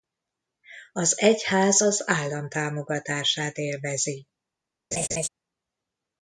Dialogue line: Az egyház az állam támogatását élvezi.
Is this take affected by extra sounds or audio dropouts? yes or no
yes